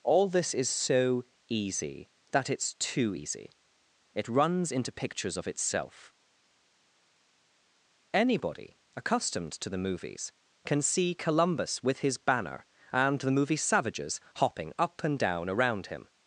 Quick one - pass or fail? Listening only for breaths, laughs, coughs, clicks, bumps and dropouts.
pass